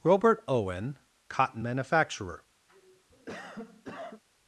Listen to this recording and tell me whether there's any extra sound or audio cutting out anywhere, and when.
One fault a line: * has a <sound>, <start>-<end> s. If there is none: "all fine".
* has a cough, 2.7-4.2 s